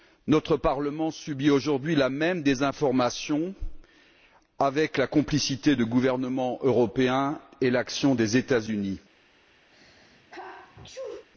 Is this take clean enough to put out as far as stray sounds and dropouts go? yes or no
no